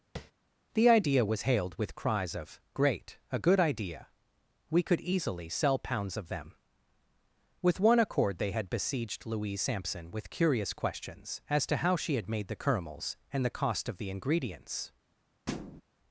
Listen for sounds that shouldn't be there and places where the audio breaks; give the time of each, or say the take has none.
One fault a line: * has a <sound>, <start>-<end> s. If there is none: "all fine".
* has a tap, 0.2-0.3 s
* has a thud, 15.5-15.8 s